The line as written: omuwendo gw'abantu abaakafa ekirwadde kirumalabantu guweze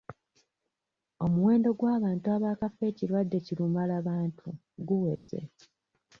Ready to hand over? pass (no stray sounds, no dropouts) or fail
fail